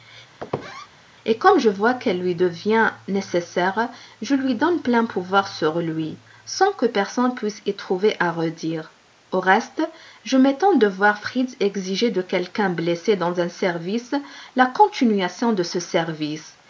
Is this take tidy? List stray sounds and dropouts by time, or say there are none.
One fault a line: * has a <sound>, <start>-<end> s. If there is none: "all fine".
* has a squeak, 0.4-0.9 s